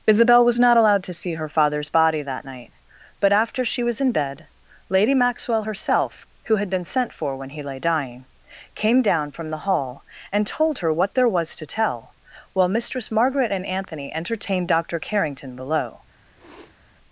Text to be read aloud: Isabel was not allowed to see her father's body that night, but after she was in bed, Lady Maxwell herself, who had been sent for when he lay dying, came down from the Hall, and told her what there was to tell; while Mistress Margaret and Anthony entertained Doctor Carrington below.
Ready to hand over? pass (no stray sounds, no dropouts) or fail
fail